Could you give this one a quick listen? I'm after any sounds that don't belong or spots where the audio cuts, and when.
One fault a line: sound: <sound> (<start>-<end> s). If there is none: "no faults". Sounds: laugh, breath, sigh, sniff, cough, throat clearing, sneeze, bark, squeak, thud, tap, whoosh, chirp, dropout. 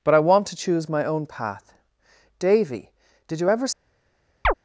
sound: chirp (4.4-4.5 s)